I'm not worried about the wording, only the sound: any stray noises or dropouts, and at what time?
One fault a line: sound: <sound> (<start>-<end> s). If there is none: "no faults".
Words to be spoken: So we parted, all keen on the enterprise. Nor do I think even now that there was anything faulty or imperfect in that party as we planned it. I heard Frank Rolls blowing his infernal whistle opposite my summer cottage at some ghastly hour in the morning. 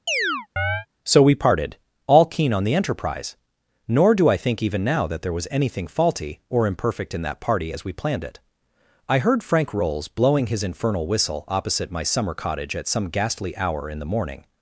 sound: chirp (0.1-0.9 s)